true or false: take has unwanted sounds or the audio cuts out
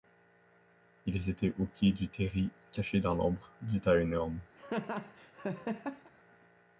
true